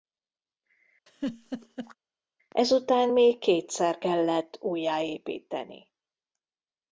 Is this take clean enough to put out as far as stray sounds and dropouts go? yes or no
no